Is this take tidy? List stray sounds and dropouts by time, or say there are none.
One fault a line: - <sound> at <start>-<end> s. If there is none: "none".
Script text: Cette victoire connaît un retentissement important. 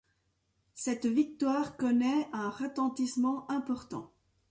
none